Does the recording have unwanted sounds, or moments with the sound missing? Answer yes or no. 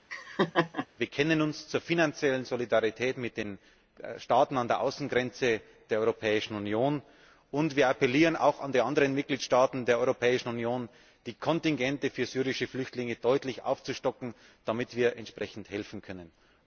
yes